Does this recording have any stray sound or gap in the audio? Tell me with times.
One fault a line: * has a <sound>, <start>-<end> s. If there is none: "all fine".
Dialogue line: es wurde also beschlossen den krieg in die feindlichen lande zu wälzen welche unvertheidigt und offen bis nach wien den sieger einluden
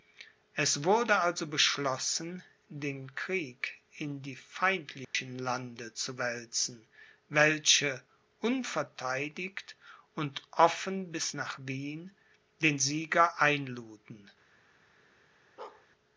* has a dropout, 5.0-5.1 s
* has a bark, 15.6-15.9 s